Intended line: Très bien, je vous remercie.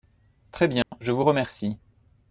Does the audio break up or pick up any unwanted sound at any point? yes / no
yes